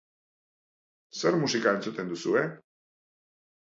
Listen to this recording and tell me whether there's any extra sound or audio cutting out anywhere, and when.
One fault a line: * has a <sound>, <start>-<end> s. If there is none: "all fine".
all fine